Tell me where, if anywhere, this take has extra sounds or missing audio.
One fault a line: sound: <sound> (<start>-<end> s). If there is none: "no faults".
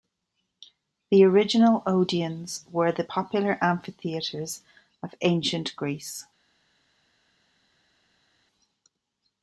no faults